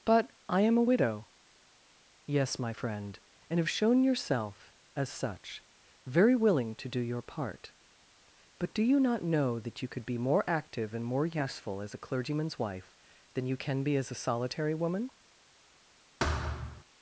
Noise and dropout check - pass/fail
fail